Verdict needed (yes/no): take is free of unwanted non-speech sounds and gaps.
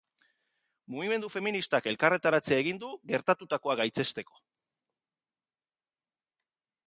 yes